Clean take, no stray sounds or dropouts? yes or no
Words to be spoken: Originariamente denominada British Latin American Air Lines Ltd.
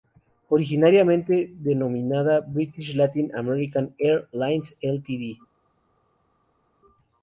yes